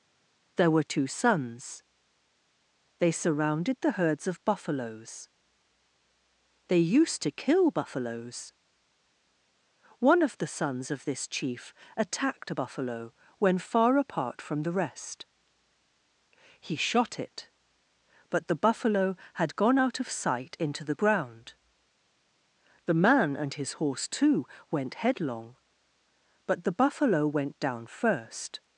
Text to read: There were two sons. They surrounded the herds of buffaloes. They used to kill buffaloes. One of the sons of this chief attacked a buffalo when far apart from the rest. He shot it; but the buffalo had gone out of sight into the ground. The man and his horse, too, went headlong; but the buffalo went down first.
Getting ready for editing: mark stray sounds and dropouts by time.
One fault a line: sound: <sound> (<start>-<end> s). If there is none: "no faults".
no faults